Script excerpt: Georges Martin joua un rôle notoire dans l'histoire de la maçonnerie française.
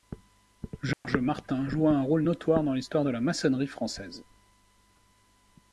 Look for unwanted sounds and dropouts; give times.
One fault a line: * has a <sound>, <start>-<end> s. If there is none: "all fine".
* has a dropout, 0.9-1.0 s